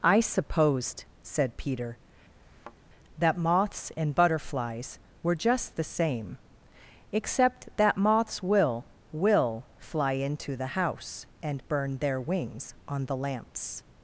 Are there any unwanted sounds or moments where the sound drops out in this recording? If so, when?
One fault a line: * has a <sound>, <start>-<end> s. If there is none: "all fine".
* has a thud, 2.4-2.8 s